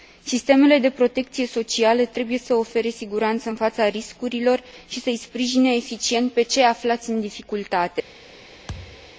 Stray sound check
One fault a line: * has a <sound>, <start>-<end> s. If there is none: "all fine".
* has a thud, 8.7-9.1 s